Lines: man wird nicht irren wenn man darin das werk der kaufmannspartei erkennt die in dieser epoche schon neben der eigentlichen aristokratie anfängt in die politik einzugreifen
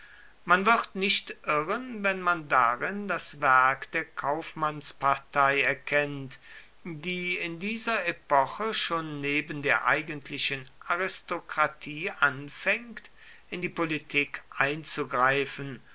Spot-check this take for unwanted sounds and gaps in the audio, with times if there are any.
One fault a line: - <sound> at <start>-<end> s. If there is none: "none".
none